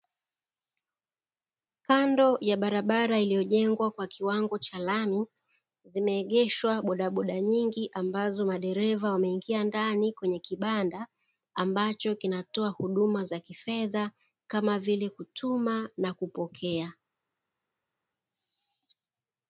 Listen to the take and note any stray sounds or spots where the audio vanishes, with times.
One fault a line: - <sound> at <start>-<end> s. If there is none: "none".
none